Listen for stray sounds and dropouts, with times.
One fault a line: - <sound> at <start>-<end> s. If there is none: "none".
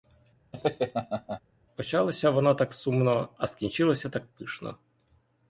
- laugh at 0.5-1.4 s